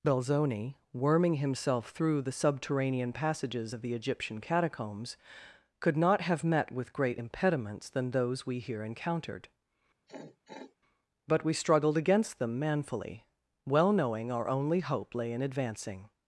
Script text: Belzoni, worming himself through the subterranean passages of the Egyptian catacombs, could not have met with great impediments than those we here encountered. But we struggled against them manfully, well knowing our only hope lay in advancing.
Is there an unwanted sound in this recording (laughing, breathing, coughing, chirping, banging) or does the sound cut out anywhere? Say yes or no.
yes